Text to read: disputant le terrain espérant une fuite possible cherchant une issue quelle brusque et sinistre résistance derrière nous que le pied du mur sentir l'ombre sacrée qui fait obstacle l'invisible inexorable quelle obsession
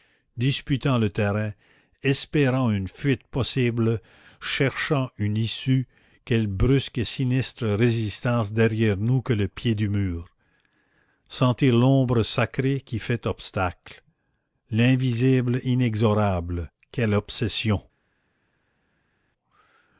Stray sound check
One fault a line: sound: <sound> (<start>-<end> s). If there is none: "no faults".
no faults